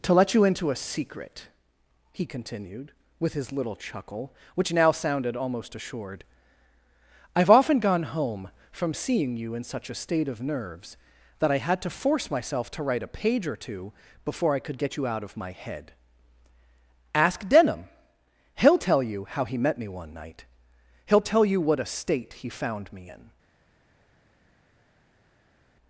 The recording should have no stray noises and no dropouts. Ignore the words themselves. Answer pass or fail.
pass